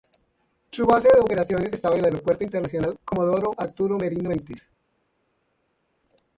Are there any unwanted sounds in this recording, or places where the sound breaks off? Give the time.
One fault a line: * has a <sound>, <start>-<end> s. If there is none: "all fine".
all fine